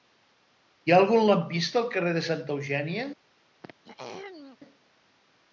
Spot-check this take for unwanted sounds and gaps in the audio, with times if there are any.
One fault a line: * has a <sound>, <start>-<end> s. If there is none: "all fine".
* has a throat clearing, 3.6-4.6 s